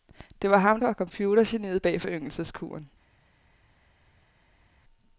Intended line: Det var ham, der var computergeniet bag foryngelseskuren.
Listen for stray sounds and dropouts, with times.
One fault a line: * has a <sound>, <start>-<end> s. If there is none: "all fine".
all fine